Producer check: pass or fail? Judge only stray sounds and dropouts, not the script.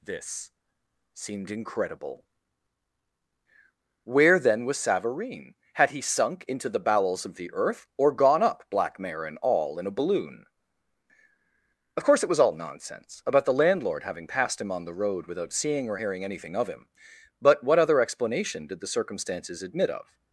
pass